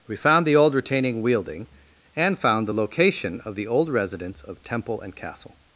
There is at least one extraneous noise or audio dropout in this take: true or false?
false